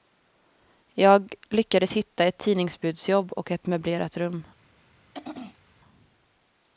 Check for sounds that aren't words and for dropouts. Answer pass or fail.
fail